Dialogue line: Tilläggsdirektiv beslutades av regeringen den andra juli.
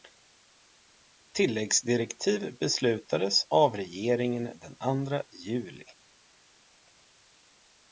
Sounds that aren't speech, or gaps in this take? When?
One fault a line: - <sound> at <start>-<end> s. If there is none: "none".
none